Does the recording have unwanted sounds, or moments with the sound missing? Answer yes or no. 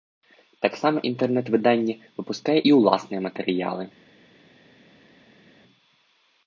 no